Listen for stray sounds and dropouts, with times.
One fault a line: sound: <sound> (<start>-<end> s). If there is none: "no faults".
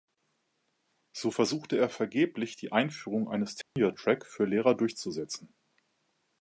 sound: dropout (3.6-3.8 s)